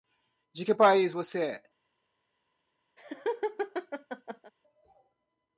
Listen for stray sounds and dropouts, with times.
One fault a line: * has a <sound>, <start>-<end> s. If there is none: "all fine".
* has a laugh, 3.0-4.5 s